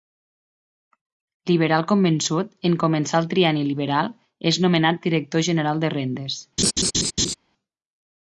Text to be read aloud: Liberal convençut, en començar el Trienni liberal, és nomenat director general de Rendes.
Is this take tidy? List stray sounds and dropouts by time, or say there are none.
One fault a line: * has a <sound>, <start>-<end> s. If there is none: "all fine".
* has a laugh, 6.6-7.3 s